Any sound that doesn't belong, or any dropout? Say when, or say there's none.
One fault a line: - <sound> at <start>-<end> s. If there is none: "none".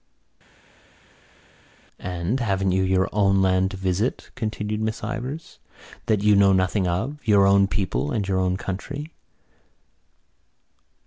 none